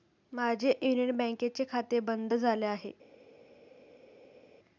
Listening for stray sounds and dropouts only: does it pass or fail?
pass